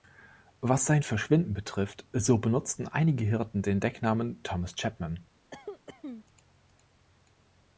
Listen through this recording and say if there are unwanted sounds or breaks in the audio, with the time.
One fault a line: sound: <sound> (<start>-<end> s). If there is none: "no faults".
sound: cough (5.5-6.2 s)